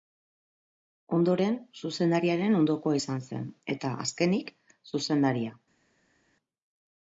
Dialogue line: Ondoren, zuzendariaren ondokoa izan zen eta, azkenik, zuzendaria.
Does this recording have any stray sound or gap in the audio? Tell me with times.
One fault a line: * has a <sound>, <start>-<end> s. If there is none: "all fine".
all fine